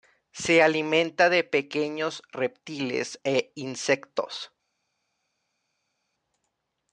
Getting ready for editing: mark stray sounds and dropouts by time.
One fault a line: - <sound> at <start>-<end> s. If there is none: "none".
none